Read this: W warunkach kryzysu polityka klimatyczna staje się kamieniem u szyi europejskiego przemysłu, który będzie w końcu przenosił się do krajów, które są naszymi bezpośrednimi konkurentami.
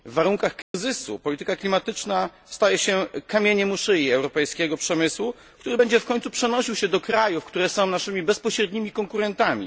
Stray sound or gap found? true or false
true